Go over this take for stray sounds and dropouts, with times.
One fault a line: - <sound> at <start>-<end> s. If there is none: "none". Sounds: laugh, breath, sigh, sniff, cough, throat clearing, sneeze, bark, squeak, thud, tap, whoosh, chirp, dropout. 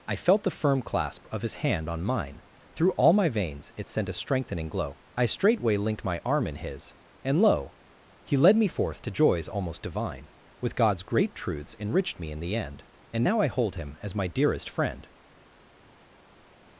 none